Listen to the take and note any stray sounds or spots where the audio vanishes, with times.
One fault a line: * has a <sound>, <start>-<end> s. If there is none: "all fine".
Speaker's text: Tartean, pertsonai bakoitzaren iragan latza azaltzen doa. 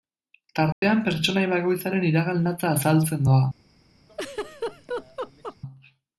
* has a dropout, 0.7-0.8 s
* has a laugh, 4.1-5.6 s